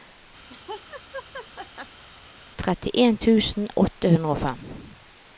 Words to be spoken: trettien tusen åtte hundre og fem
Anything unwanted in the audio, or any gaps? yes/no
yes